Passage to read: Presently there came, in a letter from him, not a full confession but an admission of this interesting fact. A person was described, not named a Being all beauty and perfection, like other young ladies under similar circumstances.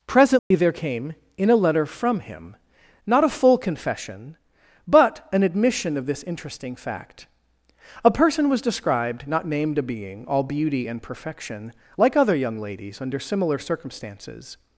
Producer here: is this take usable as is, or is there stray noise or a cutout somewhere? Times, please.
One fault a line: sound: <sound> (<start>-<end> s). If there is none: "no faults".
sound: dropout (0.4-0.5 s)